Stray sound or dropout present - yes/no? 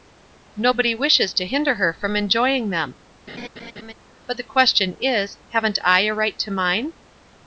yes